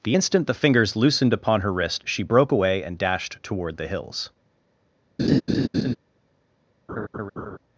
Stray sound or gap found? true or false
true